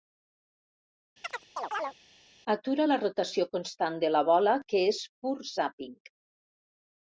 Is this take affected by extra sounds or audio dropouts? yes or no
yes